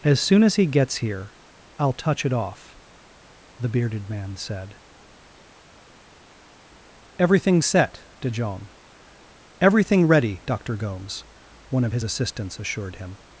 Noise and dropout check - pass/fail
pass